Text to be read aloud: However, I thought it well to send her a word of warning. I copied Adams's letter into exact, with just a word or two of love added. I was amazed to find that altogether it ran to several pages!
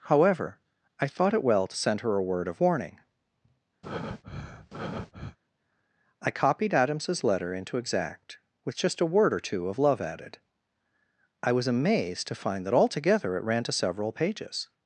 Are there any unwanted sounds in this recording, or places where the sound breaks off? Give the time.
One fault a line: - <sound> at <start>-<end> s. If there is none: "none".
- breath at 3.8-5.4 s